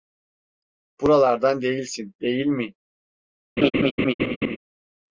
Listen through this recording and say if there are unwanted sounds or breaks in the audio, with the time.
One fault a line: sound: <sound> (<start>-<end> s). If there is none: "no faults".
sound: laugh (3.6-4.6 s)